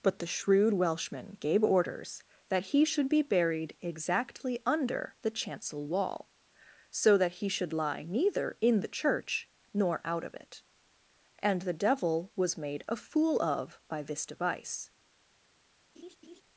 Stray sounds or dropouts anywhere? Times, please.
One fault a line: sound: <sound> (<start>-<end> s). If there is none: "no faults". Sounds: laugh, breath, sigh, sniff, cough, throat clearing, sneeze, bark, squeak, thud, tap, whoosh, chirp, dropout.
sound: laugh (16.0-16.4 s)